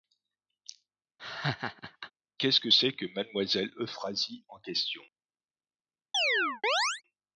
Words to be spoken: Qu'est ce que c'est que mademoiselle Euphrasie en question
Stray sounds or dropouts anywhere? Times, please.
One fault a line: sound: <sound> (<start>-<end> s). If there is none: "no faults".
sound: laugh (1.2-2.1 s)
sound: chirp (6.1-7.0 s)